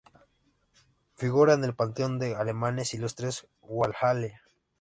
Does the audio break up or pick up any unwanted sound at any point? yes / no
no